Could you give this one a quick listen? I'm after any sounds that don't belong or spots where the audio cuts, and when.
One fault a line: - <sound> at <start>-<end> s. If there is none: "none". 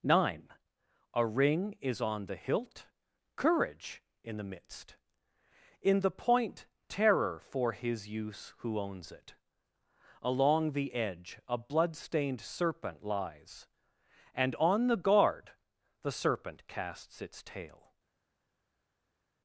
none